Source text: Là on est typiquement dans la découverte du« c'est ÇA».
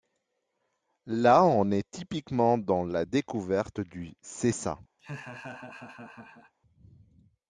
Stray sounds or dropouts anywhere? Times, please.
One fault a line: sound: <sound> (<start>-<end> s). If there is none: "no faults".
sound: laugh (5.0-6.5 s)